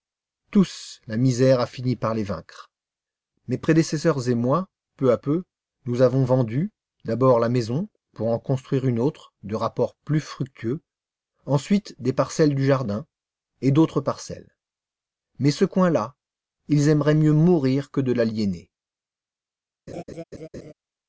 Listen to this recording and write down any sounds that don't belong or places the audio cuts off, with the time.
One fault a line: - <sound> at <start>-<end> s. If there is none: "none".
- laugh at 19.9-20.7 s